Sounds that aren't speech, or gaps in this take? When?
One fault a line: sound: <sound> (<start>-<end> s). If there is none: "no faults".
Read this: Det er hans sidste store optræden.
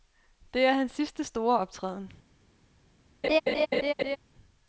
sound: laugh (3.2-4.2 s)